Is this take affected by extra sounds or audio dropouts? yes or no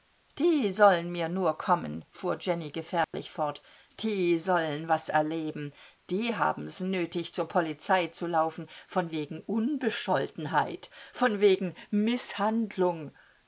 yes